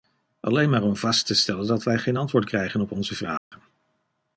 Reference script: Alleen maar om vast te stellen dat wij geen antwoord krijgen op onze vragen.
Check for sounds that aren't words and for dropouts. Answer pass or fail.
fail